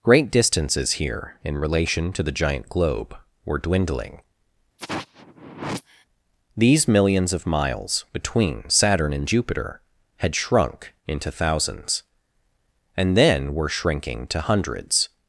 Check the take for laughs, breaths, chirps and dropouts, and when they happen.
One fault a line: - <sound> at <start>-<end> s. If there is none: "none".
- sigh at 4.8-6.1 s